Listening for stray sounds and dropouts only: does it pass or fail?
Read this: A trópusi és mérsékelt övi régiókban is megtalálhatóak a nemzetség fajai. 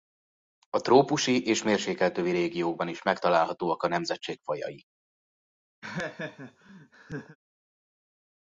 fail